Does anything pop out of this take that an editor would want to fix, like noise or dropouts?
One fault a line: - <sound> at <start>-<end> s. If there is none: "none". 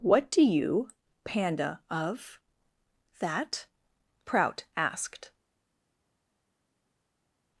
none